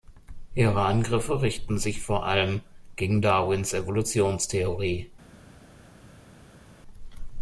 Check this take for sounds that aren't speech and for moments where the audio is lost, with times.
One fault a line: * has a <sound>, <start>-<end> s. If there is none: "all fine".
all fine